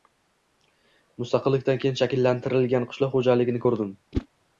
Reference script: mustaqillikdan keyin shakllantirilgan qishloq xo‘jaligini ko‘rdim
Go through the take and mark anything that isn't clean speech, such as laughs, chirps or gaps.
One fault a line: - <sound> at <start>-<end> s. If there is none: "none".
- whoosh at 4.1-4.3 s